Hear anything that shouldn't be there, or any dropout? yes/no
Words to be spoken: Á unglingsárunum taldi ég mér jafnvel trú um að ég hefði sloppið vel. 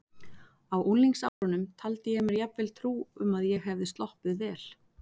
yes